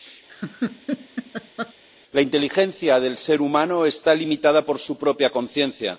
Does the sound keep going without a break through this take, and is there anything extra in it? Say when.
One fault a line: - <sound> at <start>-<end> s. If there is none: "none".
- laugh at 0.3-1.7 s